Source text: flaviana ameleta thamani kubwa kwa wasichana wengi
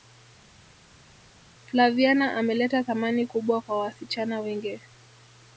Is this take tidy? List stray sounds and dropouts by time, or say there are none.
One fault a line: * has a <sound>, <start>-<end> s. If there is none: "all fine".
all fine